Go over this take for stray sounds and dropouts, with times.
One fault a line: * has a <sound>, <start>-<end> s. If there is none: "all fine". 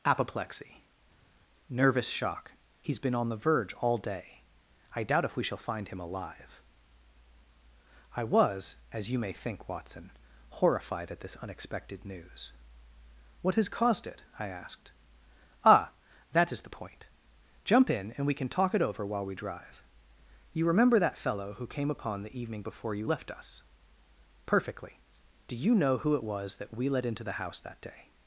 all fine